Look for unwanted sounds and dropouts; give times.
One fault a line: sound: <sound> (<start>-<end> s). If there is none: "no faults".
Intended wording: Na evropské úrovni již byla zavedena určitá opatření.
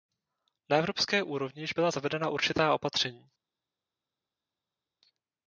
no faults